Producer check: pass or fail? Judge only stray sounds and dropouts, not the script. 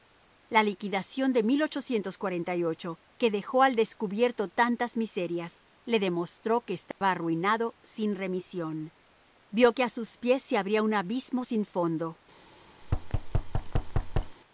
fail